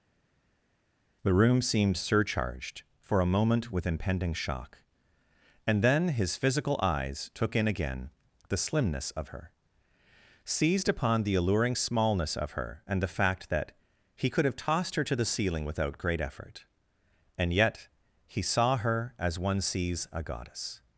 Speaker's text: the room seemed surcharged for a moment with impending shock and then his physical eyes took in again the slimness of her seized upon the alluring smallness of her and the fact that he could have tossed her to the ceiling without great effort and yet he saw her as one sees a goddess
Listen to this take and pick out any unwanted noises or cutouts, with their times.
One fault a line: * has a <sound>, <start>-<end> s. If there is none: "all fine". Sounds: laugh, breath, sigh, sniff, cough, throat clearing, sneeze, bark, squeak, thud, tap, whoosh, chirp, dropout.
all fine